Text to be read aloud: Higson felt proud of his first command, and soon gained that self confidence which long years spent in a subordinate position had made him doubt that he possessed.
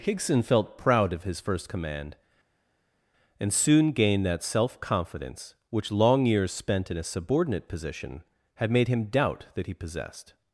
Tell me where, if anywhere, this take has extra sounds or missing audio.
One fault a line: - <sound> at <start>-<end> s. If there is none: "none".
none